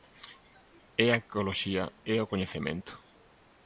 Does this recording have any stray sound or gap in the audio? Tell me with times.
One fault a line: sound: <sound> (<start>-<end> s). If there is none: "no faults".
no faults